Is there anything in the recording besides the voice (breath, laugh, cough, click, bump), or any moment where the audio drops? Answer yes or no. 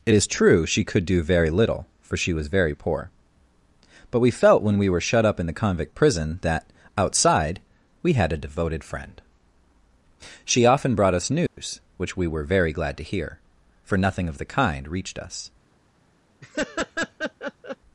yes